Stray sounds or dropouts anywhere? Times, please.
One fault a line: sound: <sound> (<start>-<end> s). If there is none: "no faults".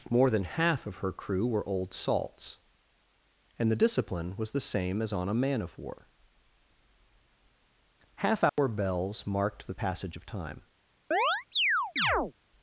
sound: dropout (8.5-8.6 s)
sound: chirp (11.1-12.3 s)